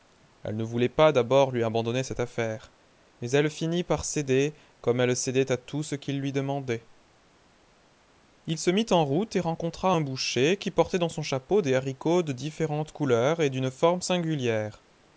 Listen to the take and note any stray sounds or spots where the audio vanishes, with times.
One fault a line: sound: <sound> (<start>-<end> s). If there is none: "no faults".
no faults